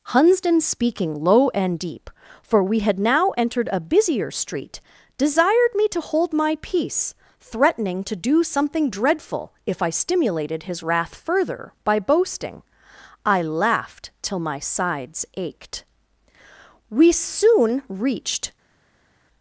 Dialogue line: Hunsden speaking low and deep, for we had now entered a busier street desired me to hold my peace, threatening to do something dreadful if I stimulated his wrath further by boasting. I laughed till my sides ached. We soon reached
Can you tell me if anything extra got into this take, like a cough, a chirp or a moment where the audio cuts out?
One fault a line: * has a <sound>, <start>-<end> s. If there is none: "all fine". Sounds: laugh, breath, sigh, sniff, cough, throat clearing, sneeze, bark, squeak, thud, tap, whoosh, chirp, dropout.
all fine